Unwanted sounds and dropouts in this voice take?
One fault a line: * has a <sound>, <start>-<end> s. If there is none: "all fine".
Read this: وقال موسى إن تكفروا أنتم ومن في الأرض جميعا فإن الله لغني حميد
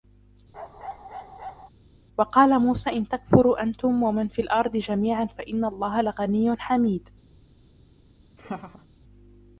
* has a bark, 0.5-1.7 s
* has a laugh, 8.4-8.9 s